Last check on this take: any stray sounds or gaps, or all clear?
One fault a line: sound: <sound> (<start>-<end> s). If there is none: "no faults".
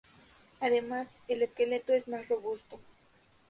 no faults